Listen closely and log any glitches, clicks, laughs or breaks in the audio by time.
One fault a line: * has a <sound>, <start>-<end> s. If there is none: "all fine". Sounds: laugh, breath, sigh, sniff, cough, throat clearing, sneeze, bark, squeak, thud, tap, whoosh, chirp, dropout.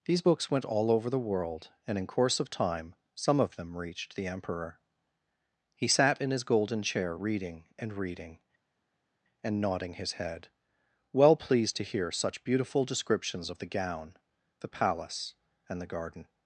all fine